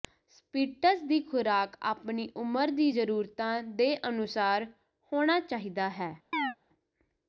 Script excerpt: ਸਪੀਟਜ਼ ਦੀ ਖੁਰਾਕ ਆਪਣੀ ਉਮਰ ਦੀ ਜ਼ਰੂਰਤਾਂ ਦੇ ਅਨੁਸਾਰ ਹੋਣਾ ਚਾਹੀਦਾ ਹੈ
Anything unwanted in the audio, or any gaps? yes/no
yes